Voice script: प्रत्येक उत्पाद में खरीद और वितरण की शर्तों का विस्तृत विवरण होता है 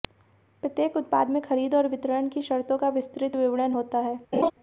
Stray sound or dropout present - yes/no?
yes